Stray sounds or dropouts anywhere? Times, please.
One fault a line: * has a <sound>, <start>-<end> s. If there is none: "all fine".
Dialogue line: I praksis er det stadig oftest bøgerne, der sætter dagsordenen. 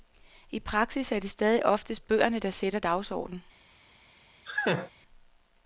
* has a laugh, 4.5-4.9 s